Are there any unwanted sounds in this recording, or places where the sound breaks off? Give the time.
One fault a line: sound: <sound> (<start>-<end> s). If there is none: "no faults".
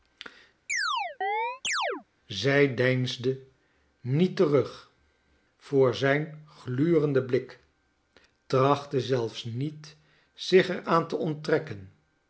sound: chirp (0.7-2.0 s)